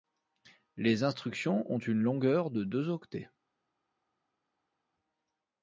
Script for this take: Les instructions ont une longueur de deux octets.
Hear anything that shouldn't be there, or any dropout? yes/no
no